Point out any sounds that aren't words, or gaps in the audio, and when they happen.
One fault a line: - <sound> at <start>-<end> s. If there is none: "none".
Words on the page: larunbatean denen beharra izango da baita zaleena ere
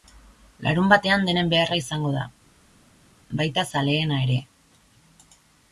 none